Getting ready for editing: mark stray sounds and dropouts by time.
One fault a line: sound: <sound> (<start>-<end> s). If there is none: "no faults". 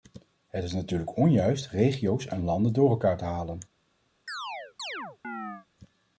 sound: chirp (4.3-5.7 s)